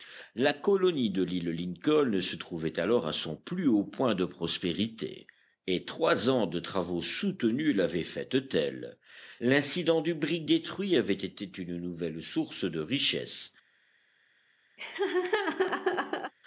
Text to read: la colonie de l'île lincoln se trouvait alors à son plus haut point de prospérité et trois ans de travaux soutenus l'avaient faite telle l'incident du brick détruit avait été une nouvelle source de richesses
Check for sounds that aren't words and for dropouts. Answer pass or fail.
fail